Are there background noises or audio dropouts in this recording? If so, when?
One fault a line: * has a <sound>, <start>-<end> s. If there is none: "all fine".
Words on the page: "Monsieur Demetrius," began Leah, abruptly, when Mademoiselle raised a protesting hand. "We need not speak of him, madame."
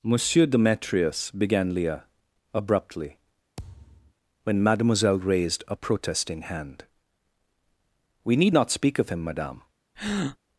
* has a thud, 3.6-4.1 s
* has a breath, 10.0-10.4 s